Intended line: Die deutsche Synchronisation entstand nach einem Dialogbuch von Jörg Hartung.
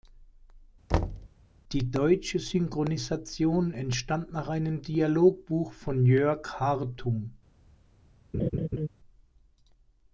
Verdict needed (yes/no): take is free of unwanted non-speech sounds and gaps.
no